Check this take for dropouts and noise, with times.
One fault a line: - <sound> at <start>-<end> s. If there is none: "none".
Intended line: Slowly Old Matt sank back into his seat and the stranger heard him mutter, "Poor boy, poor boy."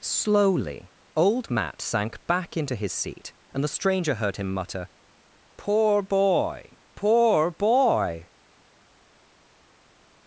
none